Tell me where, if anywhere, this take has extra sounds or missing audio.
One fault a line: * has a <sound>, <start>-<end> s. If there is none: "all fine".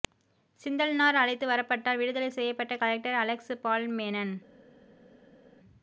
all fine